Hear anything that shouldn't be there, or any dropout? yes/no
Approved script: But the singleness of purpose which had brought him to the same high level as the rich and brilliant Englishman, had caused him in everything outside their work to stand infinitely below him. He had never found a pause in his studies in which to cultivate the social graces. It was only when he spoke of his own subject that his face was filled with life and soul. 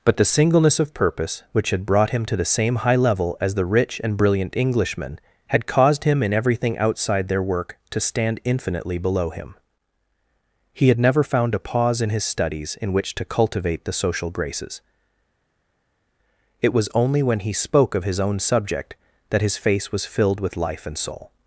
no